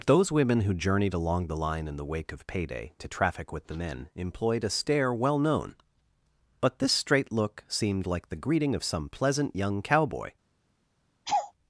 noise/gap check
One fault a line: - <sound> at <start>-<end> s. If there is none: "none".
- laugh at 11.3-11.5 s